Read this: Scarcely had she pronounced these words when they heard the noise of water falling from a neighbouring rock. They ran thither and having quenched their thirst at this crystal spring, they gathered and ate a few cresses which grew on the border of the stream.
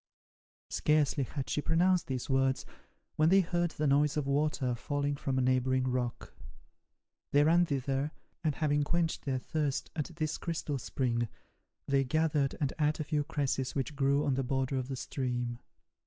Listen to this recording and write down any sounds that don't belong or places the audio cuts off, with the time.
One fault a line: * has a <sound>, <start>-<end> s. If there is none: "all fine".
all fine